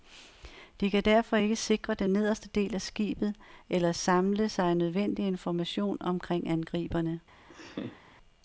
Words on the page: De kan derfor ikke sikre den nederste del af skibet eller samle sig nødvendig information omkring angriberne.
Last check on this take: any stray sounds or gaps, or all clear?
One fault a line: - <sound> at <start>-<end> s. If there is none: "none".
- laugh at 7.5-8.0 s